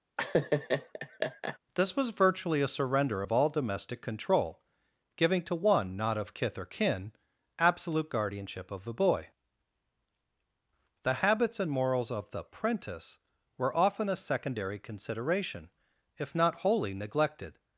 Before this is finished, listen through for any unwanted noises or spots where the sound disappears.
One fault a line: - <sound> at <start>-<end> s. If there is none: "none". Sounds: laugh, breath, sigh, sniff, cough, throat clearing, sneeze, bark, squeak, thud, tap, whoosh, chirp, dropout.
- laugh at 0.2-1.6 s